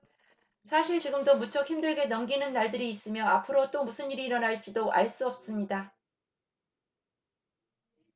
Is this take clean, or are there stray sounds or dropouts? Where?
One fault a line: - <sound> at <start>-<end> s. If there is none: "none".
none